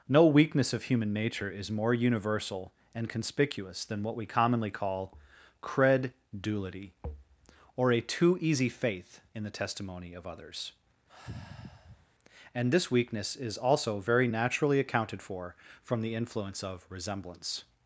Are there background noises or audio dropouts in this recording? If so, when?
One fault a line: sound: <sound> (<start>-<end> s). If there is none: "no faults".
sound: sigh (11.1-12.1 s)